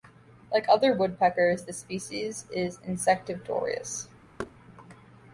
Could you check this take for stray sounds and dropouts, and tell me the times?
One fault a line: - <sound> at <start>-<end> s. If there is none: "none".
- thud at 4.4-4.5 s